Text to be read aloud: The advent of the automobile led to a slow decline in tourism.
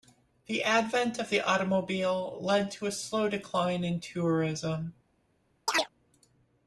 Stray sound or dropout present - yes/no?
yes